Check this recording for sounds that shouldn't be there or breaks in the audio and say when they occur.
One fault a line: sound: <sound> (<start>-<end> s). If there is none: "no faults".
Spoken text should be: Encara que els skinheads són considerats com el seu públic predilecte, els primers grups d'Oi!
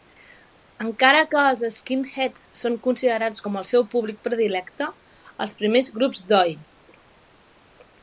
no faults